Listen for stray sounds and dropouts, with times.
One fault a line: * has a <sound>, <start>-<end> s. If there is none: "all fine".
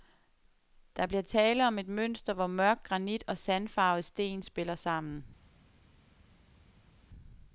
all fine